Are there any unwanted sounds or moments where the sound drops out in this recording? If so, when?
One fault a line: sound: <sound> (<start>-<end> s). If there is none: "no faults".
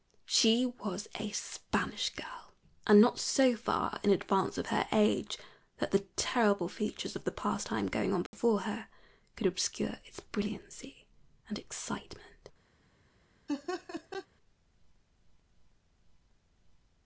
sound: dropout (8.3-8.3 s)
sound: laugh (13.5-14.3 s)